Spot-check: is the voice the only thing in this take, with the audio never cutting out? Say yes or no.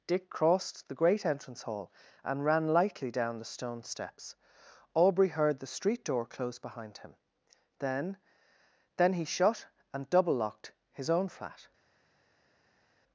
yes